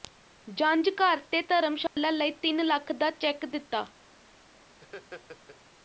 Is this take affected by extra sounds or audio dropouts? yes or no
yes